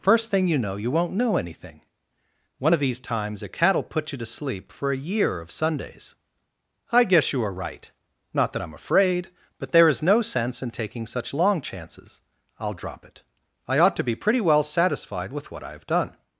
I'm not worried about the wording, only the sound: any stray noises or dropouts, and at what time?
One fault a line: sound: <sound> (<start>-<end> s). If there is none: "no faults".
no faults